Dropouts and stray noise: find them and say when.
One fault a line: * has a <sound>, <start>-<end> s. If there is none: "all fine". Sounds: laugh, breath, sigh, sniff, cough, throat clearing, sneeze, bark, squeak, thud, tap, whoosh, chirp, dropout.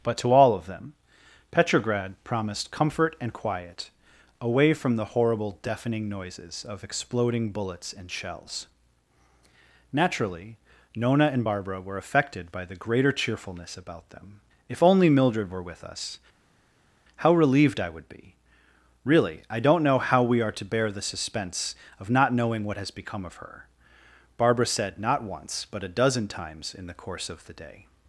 all fine